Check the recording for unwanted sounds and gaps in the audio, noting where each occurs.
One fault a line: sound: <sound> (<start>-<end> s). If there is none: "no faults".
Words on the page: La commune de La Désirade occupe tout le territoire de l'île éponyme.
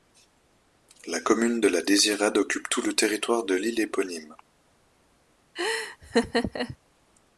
sound: laugh (5.6-6.8 s)